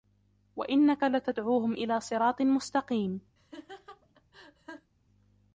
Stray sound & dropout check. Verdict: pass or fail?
fail